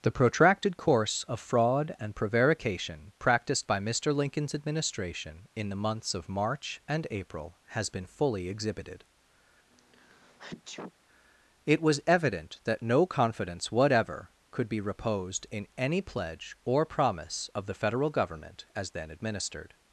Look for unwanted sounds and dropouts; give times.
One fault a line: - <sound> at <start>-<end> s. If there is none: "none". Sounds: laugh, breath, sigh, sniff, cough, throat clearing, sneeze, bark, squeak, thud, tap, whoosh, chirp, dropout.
- sneeze at 9.7-10.9 s